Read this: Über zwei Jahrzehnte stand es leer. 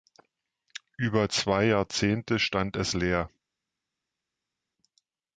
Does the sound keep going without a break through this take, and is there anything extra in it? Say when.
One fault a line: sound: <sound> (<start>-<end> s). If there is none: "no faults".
no faults